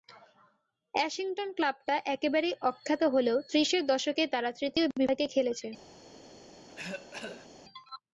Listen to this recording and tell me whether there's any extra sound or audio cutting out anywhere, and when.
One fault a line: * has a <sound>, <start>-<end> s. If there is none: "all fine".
* has a cough, 6.7-7.5 s